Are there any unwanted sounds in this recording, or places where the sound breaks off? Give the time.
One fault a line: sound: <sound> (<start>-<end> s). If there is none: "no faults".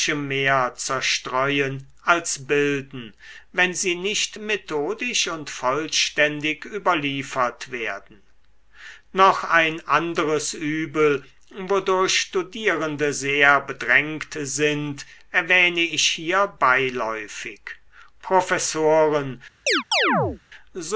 sound: chirp (19.7-20.4 s)